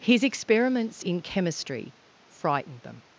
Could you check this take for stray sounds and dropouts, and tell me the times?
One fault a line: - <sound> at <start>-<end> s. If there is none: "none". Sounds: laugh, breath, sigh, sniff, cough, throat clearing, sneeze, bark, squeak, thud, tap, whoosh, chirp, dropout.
none